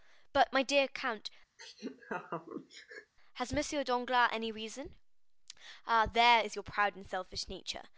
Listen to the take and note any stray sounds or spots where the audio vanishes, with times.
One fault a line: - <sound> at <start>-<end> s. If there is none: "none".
- laugh at 1.6-3.1 s